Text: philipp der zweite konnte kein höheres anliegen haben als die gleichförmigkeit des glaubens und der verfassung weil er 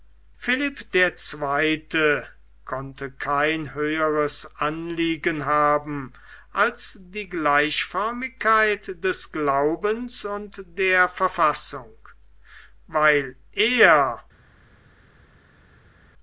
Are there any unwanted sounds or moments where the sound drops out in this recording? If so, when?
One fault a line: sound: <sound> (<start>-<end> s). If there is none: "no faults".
no faults